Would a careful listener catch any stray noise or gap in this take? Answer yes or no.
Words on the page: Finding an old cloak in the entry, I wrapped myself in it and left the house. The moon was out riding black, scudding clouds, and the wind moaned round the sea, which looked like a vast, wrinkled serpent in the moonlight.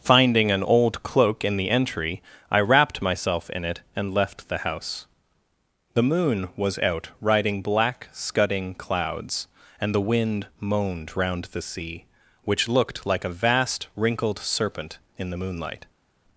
no